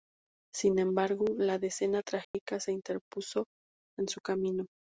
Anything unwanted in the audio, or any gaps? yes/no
yes